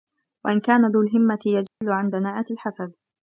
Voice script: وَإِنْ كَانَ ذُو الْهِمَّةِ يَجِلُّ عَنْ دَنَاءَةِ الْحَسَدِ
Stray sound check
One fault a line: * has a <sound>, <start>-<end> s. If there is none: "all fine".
* has a dropout, 1.7-1.8 s